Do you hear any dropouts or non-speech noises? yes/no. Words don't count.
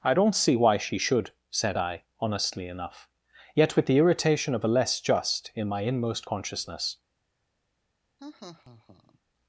yes